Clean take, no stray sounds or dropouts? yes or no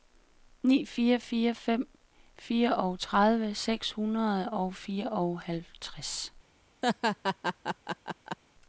no